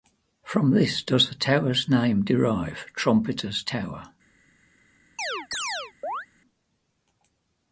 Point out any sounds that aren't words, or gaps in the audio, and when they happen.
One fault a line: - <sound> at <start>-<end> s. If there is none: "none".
- chirp at 5.2-6.3 s